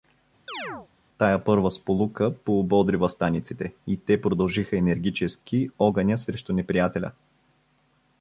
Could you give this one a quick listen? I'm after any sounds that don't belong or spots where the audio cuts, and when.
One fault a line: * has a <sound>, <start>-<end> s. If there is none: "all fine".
* has a chirp, 0.5-0.9 s